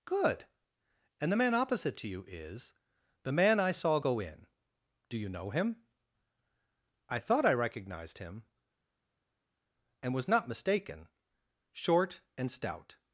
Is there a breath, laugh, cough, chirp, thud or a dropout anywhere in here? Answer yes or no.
no